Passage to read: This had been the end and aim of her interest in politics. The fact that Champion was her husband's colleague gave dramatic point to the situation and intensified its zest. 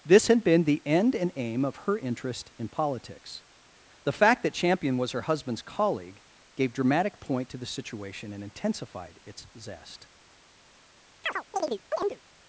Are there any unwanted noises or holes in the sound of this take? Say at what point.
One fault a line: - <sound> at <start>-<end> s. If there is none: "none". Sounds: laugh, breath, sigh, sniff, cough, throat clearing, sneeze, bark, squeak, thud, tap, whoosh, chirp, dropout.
- chirp at 11.2-12.2 s